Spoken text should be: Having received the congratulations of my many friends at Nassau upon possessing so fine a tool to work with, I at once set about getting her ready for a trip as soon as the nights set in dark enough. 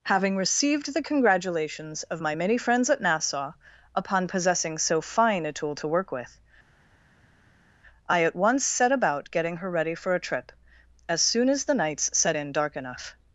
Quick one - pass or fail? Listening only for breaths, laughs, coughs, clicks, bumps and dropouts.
pass